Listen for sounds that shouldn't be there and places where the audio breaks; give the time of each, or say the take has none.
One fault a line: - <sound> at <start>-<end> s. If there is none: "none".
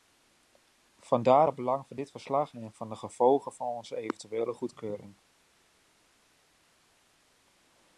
none